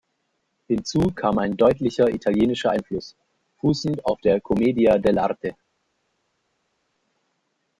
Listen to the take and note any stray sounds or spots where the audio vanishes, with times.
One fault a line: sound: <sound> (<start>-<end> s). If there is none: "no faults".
no faults